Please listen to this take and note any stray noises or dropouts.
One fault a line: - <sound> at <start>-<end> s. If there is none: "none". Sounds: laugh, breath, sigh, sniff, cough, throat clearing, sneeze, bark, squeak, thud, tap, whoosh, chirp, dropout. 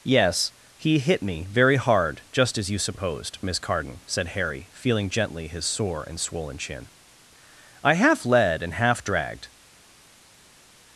none